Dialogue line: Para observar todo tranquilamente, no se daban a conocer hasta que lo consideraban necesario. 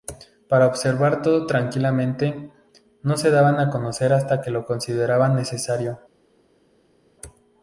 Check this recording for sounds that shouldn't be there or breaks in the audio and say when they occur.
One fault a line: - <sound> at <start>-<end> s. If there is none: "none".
none